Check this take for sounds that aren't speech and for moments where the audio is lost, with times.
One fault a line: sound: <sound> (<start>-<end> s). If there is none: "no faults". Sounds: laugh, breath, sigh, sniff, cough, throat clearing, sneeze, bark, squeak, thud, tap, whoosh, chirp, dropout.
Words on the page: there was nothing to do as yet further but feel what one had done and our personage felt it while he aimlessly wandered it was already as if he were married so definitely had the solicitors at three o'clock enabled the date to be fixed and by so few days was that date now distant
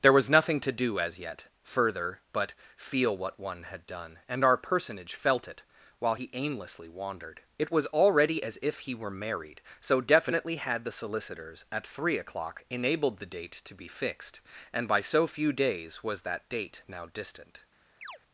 sound: chirp (18.0-18.2 s)